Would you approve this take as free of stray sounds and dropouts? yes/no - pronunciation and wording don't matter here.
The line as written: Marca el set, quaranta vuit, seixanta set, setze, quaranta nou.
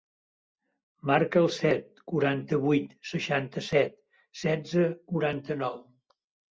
yes